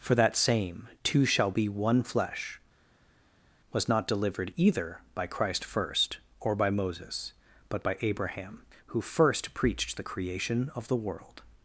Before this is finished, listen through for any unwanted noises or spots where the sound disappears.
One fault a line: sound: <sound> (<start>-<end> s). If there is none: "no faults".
no faults